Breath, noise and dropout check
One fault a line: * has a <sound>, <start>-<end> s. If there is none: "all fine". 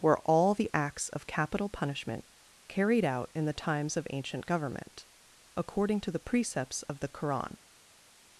all fine